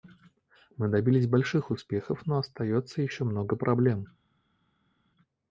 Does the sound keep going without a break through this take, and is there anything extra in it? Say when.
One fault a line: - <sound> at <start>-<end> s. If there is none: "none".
none